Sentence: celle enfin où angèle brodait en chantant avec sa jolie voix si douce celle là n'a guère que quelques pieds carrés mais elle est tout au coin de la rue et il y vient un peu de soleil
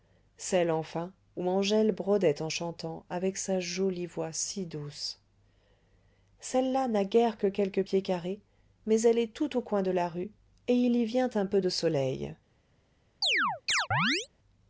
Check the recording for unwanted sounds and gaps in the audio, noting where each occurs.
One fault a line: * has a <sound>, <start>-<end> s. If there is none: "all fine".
* has a chirp, 13.2-14.3 s